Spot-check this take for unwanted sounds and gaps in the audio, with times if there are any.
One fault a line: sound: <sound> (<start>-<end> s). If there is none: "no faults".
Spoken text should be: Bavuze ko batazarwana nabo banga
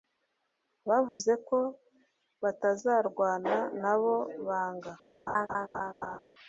sound: dropout (1.1-1.2 s)
sound: laugh (5.3-6.2 s)